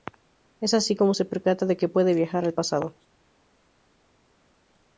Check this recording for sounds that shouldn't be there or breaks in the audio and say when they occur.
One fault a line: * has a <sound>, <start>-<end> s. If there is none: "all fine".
all fine